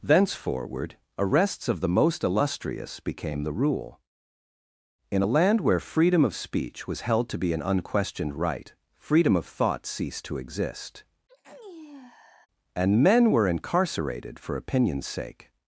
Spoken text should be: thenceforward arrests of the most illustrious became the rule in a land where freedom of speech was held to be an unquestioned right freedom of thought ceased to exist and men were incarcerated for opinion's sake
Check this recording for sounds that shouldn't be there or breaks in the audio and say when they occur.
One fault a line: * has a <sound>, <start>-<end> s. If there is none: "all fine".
* has a sneeze, 11.3-12.5 s